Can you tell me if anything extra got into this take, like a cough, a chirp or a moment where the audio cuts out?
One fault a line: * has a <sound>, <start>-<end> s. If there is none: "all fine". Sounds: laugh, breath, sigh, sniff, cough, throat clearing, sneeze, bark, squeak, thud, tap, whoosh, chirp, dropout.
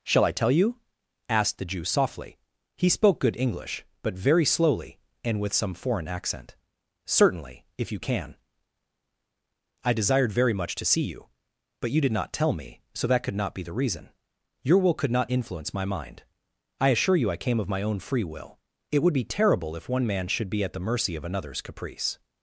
all fine